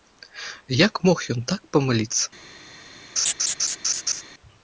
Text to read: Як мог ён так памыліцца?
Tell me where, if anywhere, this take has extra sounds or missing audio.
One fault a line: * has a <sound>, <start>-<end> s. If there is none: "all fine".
* has a laugh, 3.2-4.2 s